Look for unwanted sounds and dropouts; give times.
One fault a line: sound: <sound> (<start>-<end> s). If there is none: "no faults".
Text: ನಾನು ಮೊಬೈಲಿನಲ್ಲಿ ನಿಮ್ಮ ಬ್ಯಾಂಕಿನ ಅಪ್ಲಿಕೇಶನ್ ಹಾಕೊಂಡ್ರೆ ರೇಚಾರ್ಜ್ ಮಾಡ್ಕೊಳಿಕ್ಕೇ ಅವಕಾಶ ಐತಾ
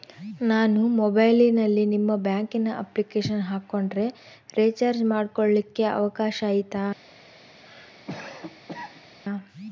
sound: cough (7.6-9.2 s)